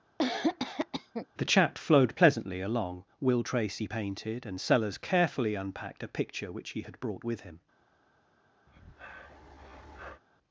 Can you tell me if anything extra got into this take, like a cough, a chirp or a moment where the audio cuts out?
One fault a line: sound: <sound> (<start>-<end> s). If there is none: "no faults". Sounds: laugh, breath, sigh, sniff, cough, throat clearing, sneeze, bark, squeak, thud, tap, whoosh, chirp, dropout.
sound: cough (0.2-1.3 s)
sound: breath (8.7-10.2 s)